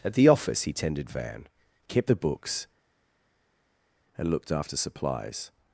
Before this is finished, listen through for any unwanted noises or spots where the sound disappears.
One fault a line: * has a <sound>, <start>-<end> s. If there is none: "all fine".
all fine